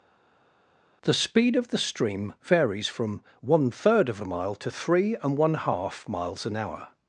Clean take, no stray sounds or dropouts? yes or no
yes